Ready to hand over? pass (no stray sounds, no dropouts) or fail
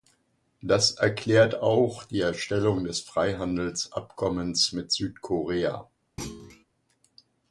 fail